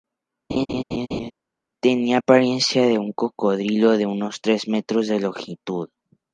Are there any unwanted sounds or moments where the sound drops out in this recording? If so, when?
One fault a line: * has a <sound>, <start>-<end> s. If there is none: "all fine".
* has a laugh, 0.5-1.3 s